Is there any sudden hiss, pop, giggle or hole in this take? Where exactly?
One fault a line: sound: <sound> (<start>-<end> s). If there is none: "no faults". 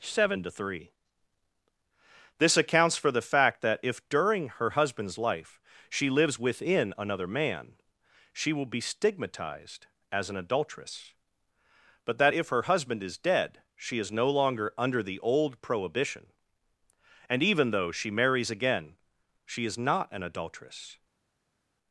no faults